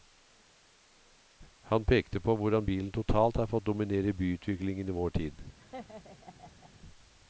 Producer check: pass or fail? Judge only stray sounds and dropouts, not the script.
fail